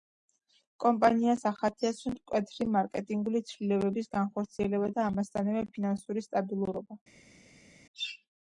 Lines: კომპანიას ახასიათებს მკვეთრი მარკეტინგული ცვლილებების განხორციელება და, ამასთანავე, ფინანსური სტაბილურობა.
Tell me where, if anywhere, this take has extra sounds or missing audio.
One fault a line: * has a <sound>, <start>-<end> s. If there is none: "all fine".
all fine